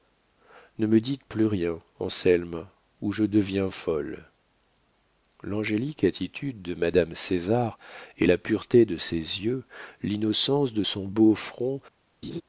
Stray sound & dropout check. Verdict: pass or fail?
fail